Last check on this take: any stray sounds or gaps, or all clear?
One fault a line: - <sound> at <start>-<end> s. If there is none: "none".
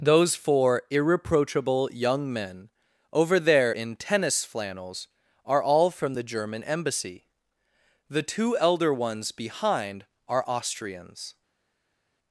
none